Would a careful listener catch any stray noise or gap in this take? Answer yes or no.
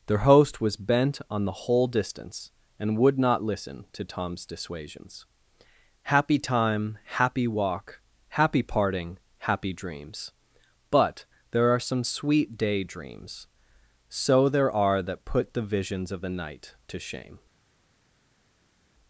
no